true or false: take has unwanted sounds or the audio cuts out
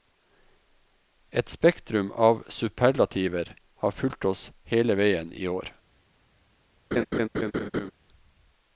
true